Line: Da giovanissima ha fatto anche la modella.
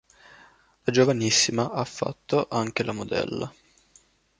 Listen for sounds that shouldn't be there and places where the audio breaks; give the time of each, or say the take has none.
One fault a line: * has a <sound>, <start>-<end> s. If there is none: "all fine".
all fine